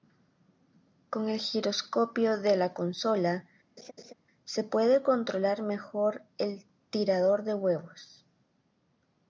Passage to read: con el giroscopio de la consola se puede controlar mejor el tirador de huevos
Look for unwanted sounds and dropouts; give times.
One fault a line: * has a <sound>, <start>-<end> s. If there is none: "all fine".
* has a laugh, 3.8-4.1 s